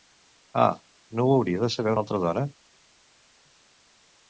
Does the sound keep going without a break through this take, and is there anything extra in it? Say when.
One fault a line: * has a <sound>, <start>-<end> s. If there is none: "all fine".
all fine